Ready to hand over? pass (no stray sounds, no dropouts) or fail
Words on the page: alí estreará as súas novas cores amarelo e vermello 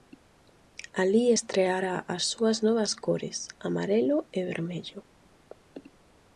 pass